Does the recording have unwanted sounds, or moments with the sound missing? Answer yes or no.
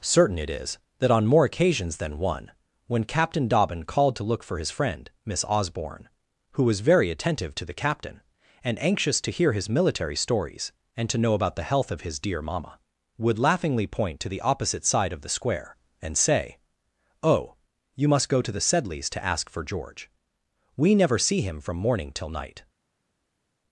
no